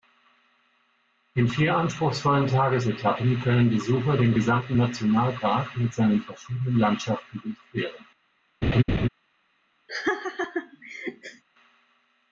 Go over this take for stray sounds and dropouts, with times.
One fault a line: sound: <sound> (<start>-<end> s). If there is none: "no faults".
sound: laugh (8.6-9.1 s)
sound: laugh (9.9-11.4 s)